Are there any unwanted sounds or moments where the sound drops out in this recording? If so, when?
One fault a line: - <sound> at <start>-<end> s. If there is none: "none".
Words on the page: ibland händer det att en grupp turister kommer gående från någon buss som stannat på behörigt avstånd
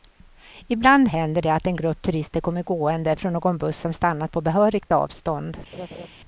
- laugh at 5.7-6.1 s